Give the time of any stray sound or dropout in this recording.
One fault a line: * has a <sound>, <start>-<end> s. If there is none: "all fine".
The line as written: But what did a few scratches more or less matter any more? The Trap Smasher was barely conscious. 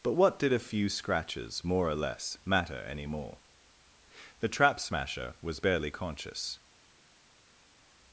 all fine